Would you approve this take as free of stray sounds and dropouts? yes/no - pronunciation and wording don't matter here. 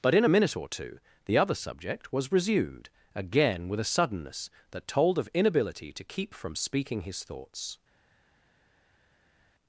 yes